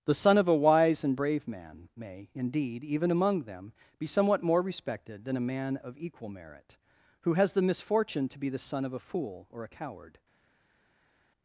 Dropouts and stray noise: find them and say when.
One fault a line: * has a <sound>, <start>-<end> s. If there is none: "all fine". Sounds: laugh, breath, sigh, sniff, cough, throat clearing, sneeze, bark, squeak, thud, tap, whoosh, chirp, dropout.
all fine